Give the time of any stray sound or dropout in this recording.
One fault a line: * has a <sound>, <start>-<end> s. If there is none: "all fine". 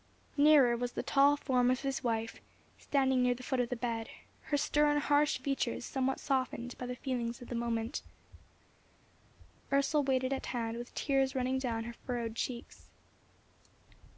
all fine